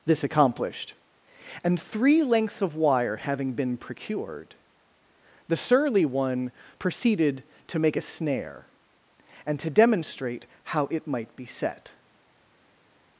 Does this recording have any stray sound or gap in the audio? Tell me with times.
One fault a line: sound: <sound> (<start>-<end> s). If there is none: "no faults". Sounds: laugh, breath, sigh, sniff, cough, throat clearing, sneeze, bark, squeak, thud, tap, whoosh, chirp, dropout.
no faults